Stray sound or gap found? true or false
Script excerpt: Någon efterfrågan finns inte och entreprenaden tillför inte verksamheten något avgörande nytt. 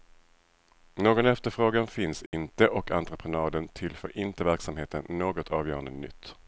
true